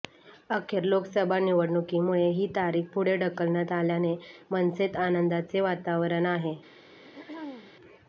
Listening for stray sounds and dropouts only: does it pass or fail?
fail